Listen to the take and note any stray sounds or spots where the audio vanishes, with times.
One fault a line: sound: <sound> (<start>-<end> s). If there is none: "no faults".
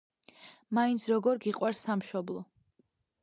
no faults